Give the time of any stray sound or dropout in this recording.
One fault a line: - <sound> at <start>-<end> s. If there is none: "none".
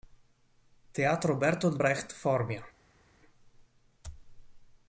none